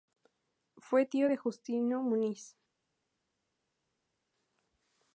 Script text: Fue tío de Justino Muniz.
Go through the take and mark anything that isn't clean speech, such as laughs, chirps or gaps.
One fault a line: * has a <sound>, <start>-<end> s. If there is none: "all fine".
all fine